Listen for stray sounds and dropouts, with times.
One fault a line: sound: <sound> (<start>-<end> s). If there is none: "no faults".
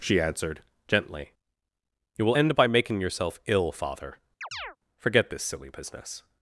sound: chirp (4.4-4.8 s)